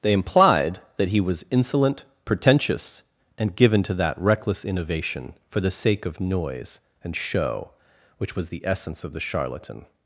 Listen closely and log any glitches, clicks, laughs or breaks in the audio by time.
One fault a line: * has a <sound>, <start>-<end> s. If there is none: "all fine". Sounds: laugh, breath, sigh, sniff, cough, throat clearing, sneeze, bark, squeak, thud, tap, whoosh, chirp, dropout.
all fine